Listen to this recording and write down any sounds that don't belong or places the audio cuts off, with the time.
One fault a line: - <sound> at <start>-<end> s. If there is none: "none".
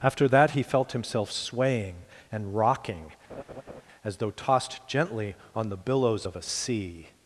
- laugh at 3.3-3.8 s